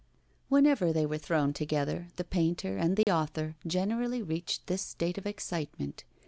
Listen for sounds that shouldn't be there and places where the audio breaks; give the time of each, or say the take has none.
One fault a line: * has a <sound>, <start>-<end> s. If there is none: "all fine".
* has a dropout, 3.0-3.1 s